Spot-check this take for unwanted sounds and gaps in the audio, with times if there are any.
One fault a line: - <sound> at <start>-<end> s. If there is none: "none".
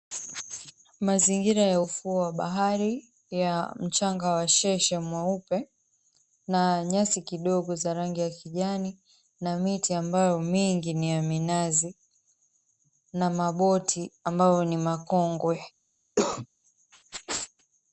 - cough at 16.2-16.5 s